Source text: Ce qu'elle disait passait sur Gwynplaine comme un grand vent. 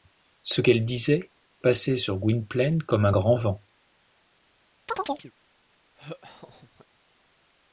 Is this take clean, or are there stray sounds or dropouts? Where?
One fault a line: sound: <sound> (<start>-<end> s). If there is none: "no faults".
sound: chirp (4.9-5.3 s)
sound: laugh (6.0-6.9 s)